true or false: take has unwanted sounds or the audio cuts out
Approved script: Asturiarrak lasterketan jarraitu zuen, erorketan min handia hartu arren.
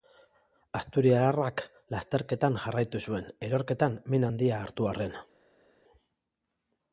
false